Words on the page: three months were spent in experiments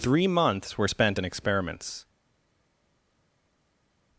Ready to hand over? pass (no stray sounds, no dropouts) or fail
pass